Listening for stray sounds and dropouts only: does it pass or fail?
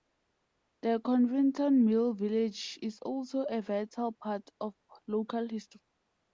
pass